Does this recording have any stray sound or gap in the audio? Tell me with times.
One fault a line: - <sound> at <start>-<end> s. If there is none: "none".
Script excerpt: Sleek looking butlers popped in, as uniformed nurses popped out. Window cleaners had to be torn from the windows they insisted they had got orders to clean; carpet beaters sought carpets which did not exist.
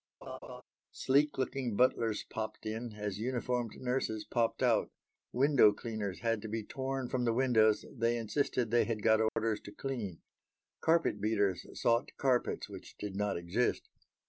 - laugh at 0.2-0.6 s
- dropout at 9.3-9.4 s